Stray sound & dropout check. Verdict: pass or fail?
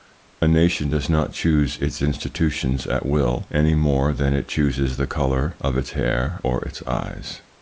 pass